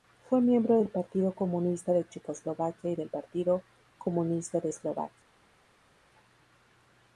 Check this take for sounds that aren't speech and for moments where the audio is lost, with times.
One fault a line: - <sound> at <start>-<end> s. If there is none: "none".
none